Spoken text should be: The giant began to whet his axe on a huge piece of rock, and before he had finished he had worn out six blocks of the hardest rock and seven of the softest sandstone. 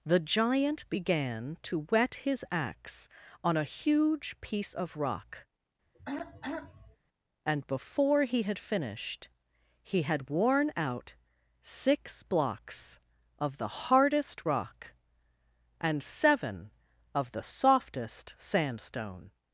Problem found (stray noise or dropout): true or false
true